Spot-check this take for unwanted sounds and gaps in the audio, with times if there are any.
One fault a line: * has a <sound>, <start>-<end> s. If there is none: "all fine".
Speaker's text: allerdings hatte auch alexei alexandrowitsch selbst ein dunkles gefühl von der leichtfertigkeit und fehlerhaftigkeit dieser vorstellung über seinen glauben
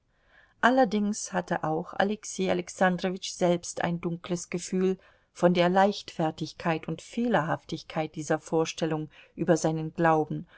all fine